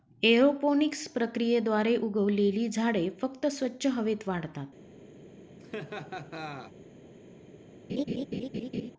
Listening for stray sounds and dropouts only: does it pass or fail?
fail